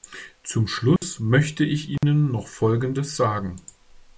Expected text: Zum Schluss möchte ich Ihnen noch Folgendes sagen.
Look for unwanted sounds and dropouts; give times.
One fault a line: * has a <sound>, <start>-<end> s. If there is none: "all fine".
* has a dropout, 1.0-1.0 s
* has a dropout, 2.0-2.0 s